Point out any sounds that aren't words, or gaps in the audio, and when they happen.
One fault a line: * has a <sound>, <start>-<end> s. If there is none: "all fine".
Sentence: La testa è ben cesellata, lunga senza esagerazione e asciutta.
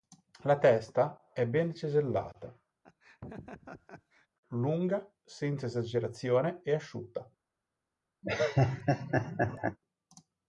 * has a laugh, 2.8-4.3 s
* has a laugh, 8.2-9.8 s